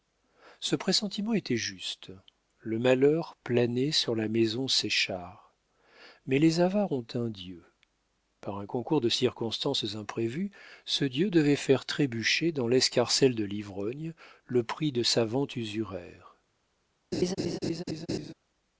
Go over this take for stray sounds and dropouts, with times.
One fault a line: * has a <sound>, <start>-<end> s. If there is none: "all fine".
* has a laugh, 17.1-18.3 s